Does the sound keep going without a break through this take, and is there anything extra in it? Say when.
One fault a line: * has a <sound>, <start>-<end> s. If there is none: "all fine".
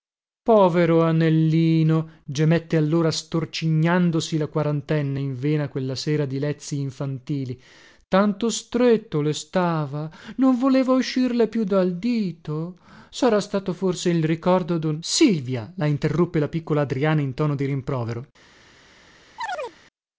* has a chirp, 19.4-19.8 s